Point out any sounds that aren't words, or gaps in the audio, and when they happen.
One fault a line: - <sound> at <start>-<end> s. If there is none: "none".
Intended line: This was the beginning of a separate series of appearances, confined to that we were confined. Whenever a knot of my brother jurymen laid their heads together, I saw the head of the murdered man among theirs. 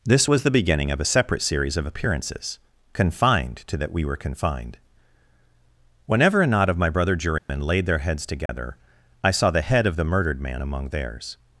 - dropout at 7.4-7.5 s
- dropout at 8.5-8.5 s